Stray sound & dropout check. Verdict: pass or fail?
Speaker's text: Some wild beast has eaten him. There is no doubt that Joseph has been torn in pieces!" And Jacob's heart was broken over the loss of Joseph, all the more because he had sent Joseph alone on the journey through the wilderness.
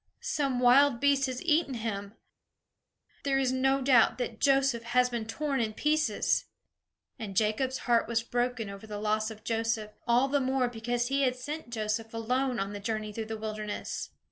pass